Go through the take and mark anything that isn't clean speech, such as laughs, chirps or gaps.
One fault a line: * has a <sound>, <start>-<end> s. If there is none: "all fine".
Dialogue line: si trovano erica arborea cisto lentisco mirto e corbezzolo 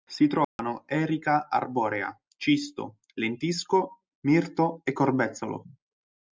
* has a dropout, 0.4-0.6 s